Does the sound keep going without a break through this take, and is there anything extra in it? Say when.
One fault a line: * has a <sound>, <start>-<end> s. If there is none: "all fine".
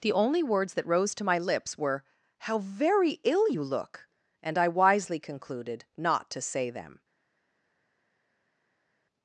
all fine